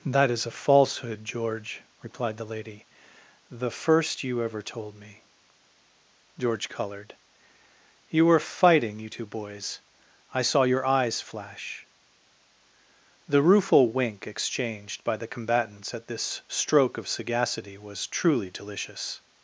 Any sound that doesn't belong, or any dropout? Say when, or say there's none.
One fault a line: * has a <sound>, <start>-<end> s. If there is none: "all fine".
all fine